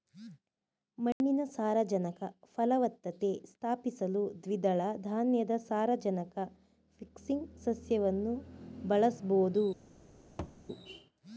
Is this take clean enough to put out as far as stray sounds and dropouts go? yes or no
no